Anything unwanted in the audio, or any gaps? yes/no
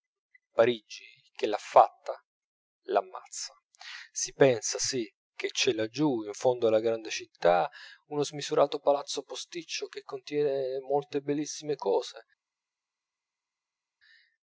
no